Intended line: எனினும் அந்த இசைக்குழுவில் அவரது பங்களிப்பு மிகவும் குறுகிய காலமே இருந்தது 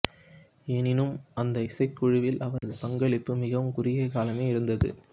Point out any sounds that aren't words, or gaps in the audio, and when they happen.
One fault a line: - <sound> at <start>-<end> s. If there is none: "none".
- dropout at 2.6-2.6 s